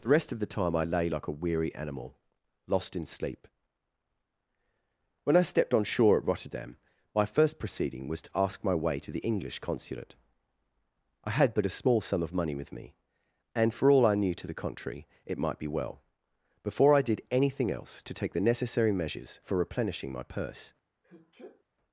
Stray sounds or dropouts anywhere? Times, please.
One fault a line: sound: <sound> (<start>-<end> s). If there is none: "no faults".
sound: sneeze (21.0-21.6 s)